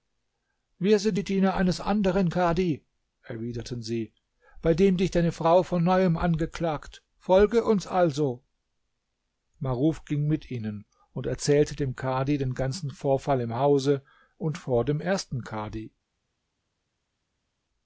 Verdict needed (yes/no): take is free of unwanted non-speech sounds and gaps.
yes